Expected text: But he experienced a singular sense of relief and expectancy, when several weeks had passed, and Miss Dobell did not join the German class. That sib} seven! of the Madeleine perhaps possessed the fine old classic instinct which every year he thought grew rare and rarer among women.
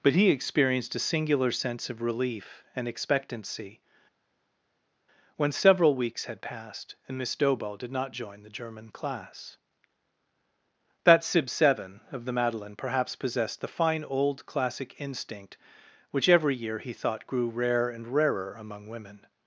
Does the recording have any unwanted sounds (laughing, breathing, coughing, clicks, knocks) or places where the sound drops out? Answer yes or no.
no